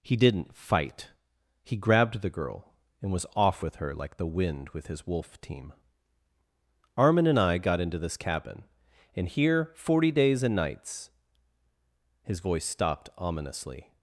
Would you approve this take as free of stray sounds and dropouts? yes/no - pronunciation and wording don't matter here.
yes